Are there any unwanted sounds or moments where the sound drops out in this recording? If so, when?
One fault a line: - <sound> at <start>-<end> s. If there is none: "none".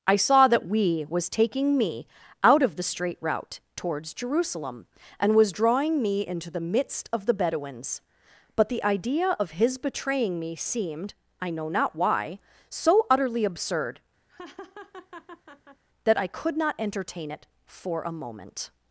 - laugh at 14.3-15.8 s